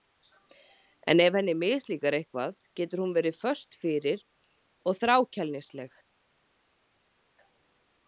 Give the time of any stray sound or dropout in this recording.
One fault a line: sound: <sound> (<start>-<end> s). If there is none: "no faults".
no faults